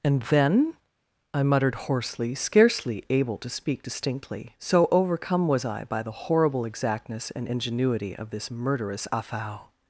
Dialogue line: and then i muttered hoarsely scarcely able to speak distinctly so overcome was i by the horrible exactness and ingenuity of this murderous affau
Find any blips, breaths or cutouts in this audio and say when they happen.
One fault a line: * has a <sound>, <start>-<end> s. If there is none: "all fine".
all fine